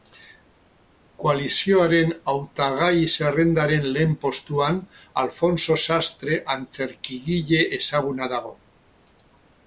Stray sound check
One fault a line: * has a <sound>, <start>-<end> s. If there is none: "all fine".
all fine